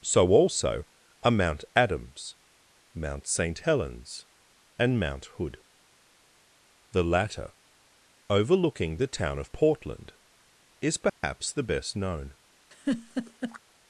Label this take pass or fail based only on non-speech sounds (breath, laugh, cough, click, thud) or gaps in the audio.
fail